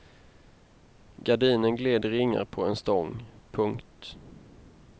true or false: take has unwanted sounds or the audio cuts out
false